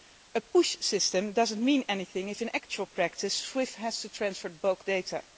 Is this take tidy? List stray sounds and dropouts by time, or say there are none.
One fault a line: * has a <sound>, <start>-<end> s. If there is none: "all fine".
all fine